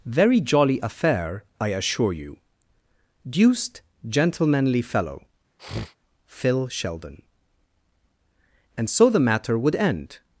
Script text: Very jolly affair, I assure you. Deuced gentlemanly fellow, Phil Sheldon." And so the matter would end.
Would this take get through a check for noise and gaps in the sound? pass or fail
fail